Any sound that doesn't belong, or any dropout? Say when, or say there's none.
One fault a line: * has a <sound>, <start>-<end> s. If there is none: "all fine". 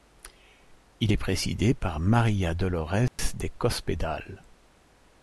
* has a dropout, 3.1-3.2 s